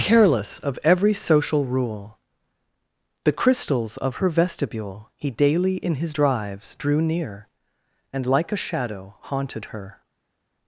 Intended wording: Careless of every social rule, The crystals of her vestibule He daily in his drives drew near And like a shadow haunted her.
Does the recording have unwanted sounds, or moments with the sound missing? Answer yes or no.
no